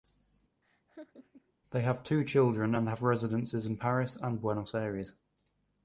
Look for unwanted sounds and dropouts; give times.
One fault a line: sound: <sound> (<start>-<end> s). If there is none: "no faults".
sound: laugh (0.6-1.5 s)